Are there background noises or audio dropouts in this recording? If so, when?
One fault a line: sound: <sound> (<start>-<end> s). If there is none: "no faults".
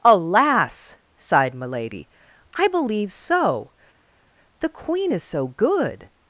no faults